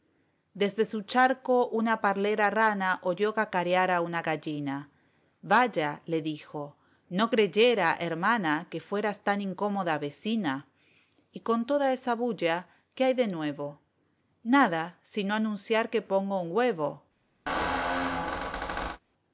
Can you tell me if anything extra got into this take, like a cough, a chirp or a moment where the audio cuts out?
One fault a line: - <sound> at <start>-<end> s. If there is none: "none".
- squeak at 17.5-19.0 s